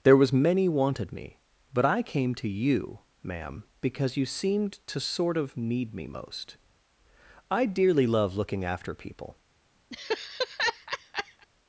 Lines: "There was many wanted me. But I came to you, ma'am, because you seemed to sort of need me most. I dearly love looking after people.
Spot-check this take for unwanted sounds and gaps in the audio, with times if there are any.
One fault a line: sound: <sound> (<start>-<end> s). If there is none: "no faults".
sound: laugh (9.9-11.5 s)